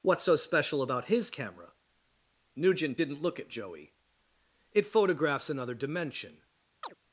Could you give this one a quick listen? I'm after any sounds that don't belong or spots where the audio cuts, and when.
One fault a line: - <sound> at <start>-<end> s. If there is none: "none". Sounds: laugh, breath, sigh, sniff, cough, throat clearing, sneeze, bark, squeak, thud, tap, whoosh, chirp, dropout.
- chirp at 6.8-6.9 s